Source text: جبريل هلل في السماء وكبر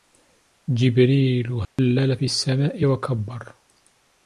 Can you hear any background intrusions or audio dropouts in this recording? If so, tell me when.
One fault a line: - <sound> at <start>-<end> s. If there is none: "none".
- dropout at 1.6-1.8 s